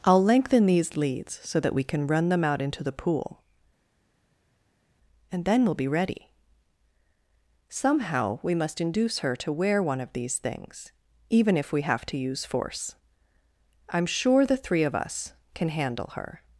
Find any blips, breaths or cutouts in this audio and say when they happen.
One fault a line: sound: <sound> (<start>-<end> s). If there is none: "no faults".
no faults